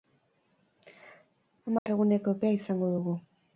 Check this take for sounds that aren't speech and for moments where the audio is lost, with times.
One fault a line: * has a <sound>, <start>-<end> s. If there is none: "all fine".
* has a dropout, 1.8-1.9 s